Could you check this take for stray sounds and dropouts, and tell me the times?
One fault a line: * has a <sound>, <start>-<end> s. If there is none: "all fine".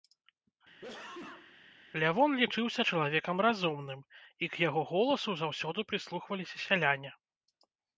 * has a sneeze, 0.8-1.6 s